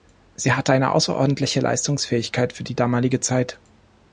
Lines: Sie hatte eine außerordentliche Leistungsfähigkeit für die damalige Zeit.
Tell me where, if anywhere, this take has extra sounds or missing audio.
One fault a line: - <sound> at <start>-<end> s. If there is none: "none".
none